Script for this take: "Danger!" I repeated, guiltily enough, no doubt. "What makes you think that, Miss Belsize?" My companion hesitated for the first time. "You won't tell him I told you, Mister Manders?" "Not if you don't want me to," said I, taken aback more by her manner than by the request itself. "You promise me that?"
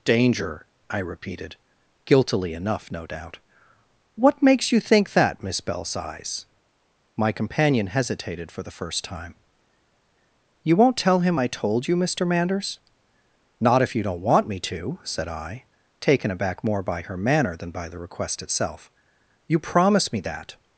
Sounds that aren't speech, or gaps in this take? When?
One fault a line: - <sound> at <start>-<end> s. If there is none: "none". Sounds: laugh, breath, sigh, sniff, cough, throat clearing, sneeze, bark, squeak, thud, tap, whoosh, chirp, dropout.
none